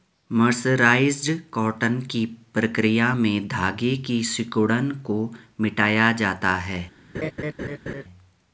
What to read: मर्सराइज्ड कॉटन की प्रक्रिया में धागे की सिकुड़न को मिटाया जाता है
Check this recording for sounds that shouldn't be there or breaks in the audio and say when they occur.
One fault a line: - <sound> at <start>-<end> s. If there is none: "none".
- laugh at 7.1-8.0 s